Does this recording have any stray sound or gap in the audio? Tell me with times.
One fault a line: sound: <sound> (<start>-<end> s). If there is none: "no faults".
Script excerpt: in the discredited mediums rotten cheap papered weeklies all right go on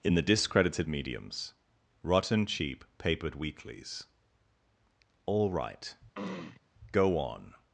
sound: throat clearing (6.1-6.6 s)